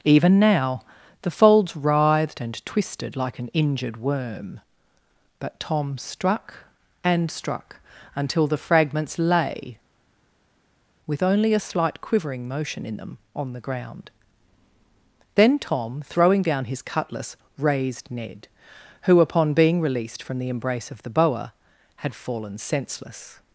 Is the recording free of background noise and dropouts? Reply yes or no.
yes